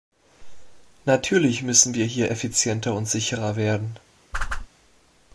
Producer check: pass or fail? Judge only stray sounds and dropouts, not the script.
fail